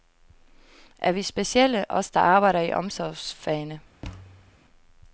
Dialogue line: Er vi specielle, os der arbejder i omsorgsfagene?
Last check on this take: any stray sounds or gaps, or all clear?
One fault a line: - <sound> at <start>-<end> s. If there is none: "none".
- thud at 4.0-4.6 s